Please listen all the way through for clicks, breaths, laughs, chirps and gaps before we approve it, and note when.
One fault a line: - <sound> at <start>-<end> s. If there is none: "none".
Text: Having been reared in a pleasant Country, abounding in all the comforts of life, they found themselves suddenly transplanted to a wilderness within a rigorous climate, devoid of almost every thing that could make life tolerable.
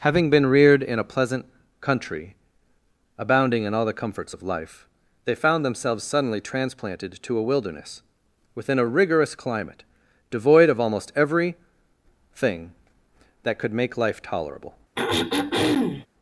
- throat clearing at 15.0-16.1 s